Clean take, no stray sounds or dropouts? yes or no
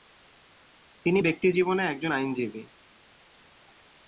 yes